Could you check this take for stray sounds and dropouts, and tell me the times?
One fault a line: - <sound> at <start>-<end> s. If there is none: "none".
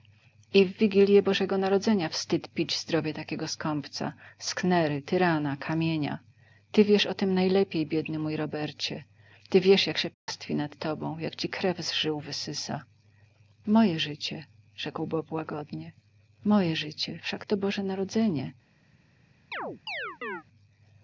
- dropout at 10.1-10.3 s
- chirp at 19.5-20.4 s